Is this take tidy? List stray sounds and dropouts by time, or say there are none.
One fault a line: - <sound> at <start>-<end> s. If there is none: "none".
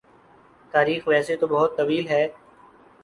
none